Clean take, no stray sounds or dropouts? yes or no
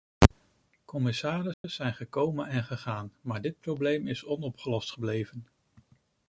no